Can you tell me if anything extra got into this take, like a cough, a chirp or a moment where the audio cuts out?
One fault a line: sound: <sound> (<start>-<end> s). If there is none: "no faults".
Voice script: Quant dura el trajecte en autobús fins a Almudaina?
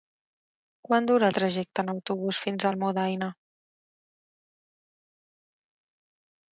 no faults